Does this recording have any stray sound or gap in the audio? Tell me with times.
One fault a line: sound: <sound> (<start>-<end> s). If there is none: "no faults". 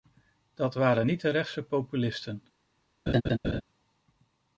sound: laugh (3.1-3.6 s)